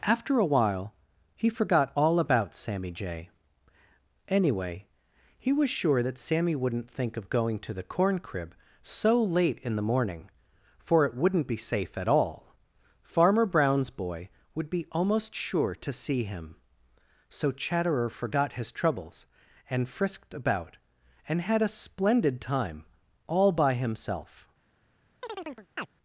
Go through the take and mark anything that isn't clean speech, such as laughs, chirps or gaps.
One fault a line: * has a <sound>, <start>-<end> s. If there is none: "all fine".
* has a chirp, 25.2-25.9 s